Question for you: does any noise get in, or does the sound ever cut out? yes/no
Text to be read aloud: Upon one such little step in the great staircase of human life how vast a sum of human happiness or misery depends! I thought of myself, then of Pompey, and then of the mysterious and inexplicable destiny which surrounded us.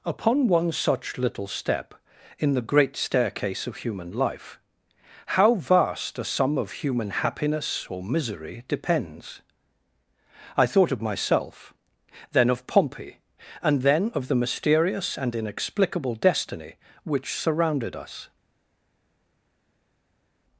no